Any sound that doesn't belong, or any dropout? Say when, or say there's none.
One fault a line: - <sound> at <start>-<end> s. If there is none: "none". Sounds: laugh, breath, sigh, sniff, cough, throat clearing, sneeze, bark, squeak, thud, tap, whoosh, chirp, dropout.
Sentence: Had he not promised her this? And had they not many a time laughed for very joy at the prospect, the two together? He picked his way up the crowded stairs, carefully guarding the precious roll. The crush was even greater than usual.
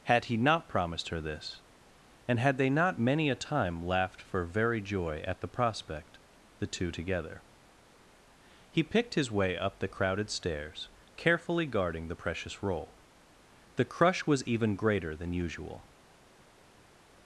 none